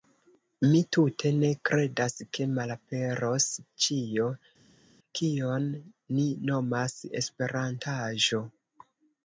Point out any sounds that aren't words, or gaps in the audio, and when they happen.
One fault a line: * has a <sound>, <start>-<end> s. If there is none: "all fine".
all fine